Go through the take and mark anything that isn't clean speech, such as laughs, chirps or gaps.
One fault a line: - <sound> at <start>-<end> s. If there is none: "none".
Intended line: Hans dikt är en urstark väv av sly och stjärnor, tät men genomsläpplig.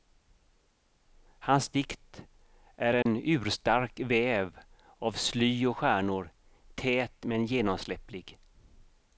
- dropout at 3.0-3.1 s